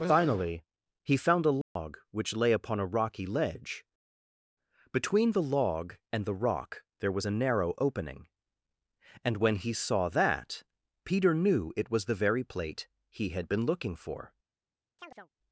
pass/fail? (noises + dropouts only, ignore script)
fail